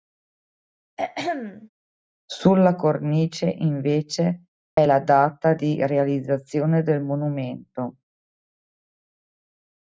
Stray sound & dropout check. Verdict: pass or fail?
fail